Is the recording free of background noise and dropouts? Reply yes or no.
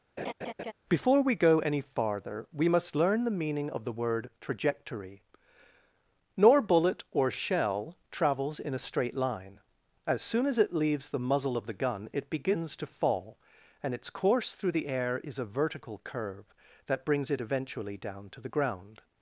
no